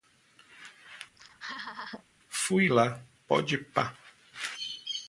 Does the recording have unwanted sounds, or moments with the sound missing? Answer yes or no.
yes